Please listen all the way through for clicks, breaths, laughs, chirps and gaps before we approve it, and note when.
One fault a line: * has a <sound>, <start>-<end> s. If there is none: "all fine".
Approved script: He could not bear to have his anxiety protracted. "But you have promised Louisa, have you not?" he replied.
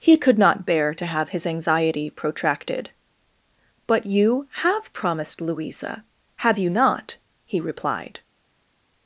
all fine